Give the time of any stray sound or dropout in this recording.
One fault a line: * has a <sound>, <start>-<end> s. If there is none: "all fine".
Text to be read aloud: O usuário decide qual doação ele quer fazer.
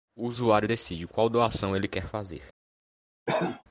* has a cough, 3.3-3.6 s